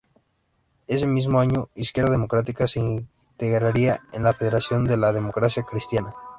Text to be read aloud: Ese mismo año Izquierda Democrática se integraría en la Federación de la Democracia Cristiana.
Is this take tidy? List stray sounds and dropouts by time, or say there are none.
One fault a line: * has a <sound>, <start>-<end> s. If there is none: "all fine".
all fine